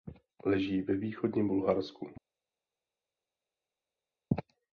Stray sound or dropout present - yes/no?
no